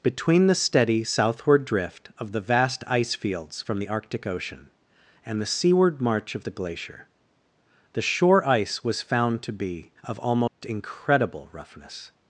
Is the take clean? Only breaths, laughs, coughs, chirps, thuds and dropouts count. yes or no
no